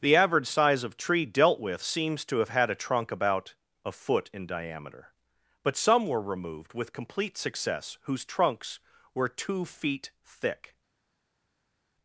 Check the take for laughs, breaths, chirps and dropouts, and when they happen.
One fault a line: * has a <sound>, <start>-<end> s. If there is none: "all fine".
all fine